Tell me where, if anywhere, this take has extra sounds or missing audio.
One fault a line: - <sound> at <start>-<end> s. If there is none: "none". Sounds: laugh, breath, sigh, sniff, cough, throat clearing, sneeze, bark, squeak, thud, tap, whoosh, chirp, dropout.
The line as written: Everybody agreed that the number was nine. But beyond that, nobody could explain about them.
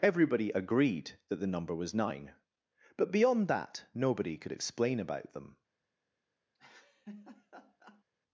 - laugh at 6.5-8.0 s